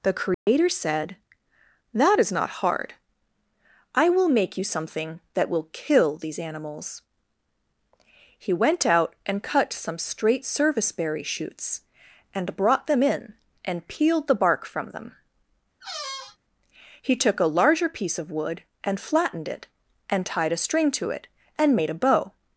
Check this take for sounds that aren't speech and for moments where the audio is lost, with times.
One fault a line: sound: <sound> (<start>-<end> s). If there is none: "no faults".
sound: dropout (0.3-0.5 s)
sound: squeak (15.8-16.4 s)